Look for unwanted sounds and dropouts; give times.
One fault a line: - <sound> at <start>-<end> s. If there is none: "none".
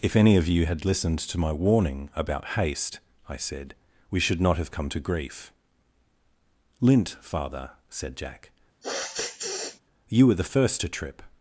- sniff at 8.8-9.8 s